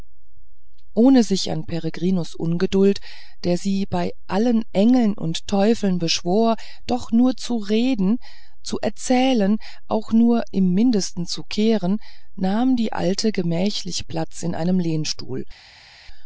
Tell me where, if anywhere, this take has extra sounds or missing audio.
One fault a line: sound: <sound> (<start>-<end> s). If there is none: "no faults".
no faults